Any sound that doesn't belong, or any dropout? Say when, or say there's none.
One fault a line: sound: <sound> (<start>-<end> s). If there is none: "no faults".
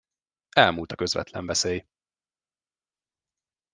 no faults